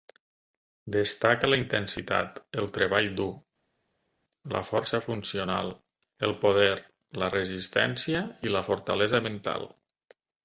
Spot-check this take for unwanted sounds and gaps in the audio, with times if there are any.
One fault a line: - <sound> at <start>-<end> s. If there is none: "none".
none